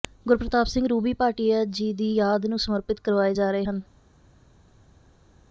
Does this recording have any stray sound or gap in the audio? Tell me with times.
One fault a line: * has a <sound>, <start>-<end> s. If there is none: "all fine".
all fine